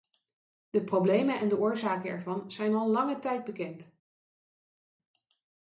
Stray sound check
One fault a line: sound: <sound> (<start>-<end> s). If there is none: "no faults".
no faults